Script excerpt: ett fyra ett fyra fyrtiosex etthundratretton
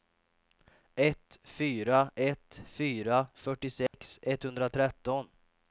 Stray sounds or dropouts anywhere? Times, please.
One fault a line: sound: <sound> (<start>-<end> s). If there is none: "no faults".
sound: dropout (3.9-3.9 s)